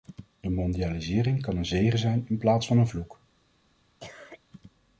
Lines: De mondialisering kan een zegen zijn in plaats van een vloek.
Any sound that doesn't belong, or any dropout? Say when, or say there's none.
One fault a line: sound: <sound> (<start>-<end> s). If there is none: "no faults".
sound: cough (4.0-4.4 s)